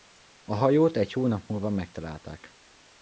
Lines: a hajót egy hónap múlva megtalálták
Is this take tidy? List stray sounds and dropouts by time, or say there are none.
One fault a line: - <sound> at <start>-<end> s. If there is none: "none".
none